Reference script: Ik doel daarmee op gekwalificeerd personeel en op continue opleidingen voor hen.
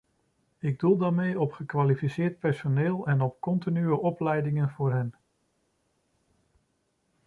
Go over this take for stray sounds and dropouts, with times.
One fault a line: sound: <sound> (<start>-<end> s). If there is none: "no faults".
no faults